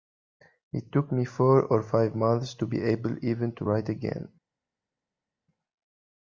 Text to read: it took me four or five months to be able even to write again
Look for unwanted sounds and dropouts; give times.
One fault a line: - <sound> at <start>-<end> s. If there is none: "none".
none